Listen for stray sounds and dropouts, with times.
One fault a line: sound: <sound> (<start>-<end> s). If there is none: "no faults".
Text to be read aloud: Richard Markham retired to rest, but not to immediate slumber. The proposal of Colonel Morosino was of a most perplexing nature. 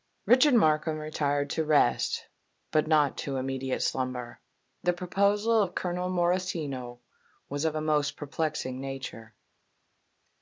no faults